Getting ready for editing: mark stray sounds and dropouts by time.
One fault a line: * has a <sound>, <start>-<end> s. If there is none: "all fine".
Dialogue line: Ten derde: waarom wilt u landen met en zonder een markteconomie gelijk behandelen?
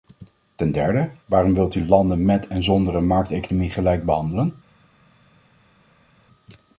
all fine